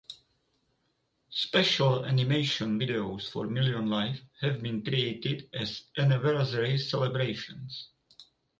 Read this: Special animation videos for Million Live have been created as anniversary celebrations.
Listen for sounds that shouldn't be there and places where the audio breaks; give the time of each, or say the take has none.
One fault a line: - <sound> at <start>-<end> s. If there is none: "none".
none